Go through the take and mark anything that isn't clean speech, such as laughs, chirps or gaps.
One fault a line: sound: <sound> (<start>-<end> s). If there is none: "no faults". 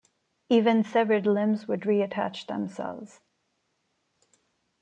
no faults